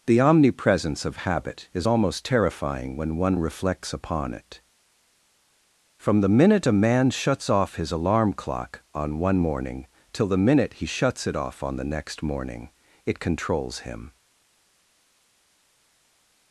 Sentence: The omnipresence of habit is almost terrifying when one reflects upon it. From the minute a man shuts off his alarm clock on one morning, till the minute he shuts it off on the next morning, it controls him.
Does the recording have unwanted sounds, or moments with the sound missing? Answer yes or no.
no